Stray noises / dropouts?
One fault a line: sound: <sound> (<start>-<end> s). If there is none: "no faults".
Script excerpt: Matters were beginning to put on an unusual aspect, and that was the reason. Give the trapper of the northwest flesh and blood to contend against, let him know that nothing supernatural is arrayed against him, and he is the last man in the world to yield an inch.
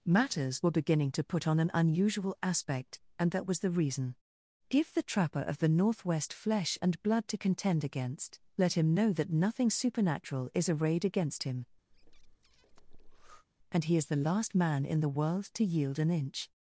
sound: breath (11.9-13.5 s)